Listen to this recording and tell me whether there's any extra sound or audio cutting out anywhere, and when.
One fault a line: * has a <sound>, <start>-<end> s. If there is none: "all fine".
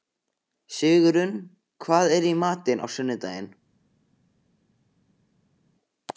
all fine